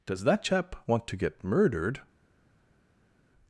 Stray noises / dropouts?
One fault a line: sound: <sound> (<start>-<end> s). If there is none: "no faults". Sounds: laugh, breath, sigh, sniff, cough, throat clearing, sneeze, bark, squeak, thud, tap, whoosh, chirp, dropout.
no faults